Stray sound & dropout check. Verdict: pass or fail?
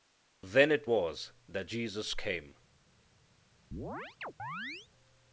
fail